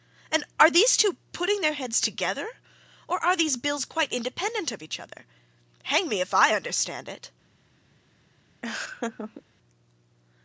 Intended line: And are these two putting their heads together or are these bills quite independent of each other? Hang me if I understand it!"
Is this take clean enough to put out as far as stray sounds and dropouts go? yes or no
no